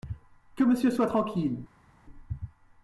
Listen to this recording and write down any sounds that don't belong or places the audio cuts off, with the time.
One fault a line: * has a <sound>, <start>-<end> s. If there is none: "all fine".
all fine